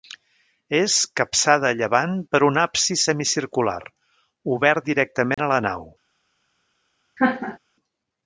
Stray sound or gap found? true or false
true